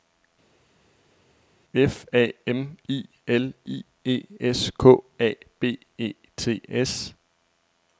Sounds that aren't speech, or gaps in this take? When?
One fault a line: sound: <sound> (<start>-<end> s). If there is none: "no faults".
no faults